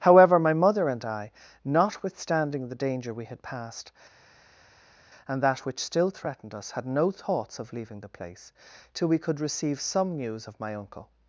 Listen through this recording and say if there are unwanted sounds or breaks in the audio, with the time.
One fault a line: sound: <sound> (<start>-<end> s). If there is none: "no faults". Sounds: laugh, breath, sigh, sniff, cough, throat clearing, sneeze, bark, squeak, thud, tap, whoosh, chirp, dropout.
no faults